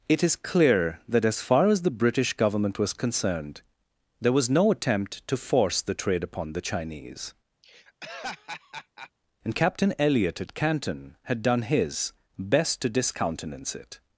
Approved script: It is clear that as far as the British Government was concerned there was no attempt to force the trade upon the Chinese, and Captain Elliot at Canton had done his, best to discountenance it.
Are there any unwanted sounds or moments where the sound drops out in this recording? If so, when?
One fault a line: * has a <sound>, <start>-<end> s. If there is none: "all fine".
* has a laugh, 7.6-9.1 s